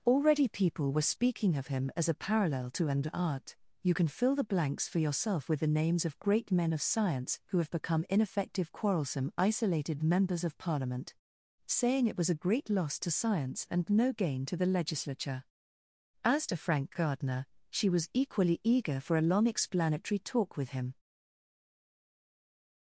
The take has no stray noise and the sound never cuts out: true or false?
true